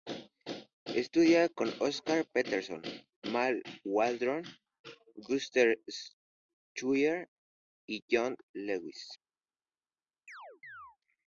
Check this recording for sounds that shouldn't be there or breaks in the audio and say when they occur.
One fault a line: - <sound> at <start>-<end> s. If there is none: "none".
- chirp at 10.3-11.0 s